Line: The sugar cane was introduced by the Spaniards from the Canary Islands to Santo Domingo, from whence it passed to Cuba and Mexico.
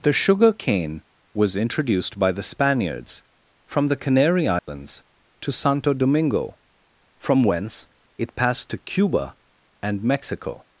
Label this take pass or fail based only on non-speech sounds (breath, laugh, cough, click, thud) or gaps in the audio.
fail